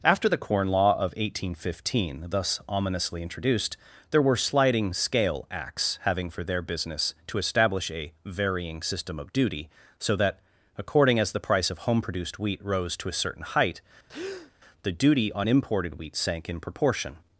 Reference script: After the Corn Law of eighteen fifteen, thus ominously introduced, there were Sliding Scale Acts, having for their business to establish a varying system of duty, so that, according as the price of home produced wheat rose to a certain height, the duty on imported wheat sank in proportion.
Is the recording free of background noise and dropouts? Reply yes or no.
no